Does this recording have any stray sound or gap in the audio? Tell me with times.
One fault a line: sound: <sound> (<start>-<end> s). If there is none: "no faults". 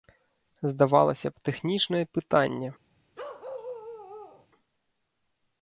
sound: bark (3.2-4.5 s)